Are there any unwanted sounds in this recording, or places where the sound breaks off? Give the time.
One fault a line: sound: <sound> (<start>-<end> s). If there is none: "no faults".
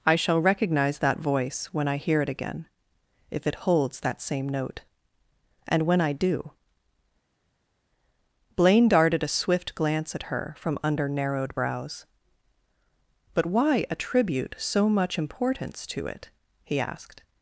no faults